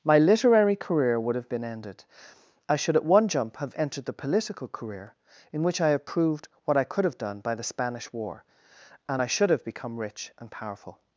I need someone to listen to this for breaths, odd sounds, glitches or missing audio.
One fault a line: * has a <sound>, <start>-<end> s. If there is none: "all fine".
all fine